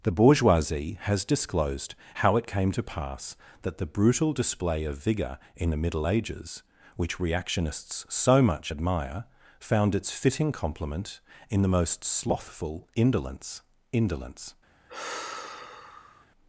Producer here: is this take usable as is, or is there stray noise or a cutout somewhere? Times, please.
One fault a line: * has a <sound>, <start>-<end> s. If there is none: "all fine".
* has a sigh, 14.9-16.3 s